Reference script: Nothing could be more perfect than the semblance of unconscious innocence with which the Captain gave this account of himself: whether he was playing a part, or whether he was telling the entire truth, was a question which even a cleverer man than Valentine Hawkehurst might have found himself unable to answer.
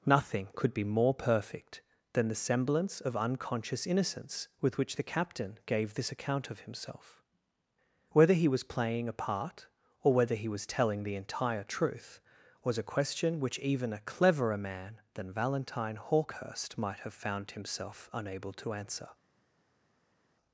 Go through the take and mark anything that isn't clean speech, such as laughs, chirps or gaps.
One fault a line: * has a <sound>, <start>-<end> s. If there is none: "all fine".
all fine